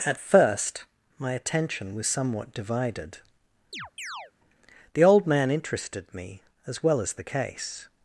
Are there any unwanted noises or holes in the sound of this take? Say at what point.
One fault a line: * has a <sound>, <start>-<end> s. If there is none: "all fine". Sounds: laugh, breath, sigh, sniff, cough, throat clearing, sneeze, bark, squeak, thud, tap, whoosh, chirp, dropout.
* has a chirp, 3.7-4.3 s